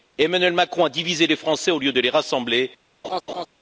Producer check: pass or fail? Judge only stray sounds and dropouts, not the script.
fail